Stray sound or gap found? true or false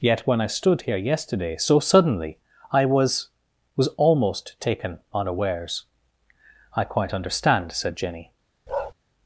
true